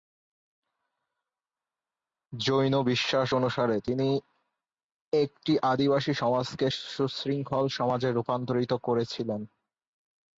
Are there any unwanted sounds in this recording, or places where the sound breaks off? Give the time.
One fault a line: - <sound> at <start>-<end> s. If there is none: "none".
none